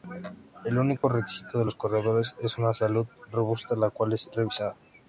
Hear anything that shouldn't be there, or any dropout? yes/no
yes